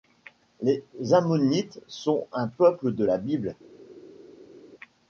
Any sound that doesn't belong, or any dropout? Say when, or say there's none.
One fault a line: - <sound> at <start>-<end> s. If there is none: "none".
none